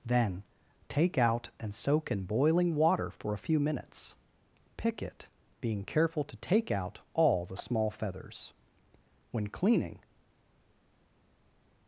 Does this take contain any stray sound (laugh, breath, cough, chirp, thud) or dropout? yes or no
no